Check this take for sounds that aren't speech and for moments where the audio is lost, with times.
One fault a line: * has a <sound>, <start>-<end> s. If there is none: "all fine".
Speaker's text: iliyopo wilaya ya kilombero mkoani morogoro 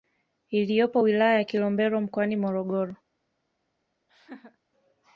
* has a laugh, 4.1-4.6 s